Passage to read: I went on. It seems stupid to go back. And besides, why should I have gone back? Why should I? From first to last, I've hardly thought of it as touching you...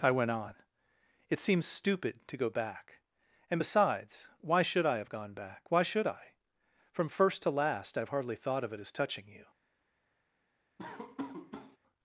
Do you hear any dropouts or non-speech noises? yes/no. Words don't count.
yes